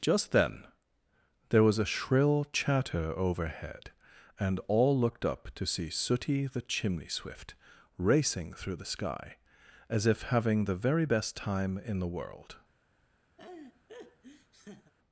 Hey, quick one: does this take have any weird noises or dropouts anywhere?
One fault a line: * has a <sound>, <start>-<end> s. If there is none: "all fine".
* has a laugh, 13.4-14.9 s